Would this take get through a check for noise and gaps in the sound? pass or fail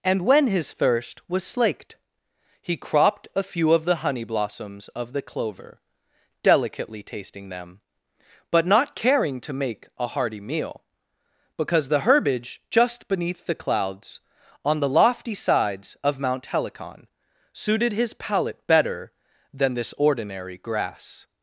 pass